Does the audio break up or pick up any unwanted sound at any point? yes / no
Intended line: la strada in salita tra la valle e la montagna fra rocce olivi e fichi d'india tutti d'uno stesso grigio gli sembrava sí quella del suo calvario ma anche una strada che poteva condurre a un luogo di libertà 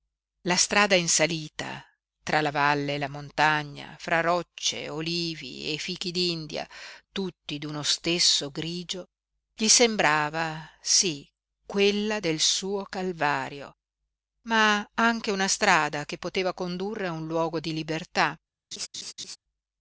yes